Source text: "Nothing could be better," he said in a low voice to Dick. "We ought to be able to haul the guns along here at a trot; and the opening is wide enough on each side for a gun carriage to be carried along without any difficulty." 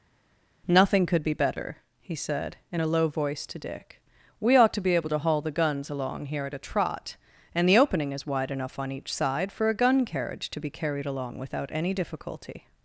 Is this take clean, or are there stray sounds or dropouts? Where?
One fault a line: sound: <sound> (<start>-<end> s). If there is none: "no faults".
no faults